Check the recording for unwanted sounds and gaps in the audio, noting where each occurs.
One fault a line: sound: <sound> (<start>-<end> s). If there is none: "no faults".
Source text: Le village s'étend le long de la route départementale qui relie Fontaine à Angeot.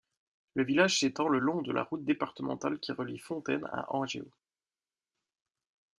no faults